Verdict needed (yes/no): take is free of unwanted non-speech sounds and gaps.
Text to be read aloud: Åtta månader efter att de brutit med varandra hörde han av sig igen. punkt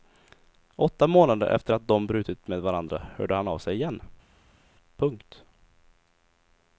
yes